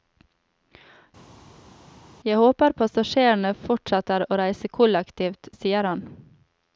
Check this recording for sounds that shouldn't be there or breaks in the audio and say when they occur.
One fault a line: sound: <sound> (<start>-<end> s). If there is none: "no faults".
no faults